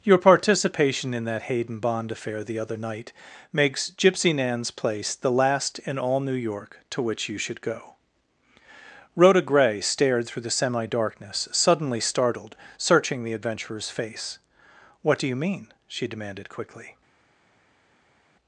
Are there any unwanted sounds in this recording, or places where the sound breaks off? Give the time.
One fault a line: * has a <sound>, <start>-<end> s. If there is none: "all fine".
all fine